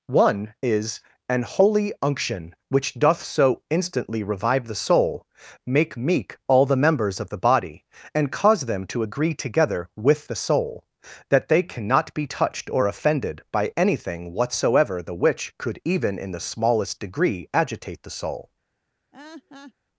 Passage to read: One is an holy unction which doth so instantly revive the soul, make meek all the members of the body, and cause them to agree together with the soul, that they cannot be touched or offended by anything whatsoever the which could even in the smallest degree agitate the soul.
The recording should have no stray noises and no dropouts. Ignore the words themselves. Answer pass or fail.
fail